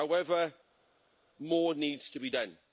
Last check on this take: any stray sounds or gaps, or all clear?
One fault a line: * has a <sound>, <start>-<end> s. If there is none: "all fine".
all fine